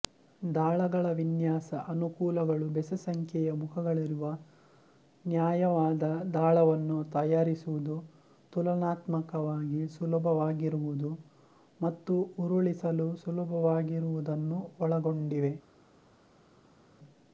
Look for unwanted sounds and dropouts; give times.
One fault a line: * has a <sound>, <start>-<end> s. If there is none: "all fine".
all fine